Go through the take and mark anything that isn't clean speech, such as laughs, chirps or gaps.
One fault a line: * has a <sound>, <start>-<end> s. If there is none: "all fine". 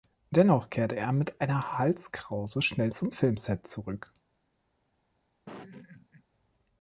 * has a laugh, 5.5-6.2 s